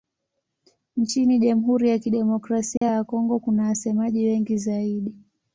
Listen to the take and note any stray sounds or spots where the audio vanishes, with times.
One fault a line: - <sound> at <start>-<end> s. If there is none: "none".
- dropout at 2.8-2.8 s